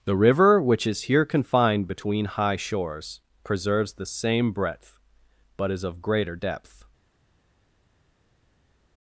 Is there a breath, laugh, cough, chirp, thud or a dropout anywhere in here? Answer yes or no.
no